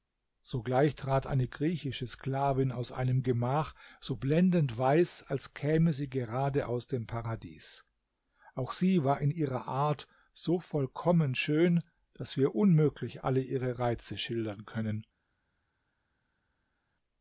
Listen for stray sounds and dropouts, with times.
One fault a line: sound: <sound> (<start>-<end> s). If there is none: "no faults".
no faults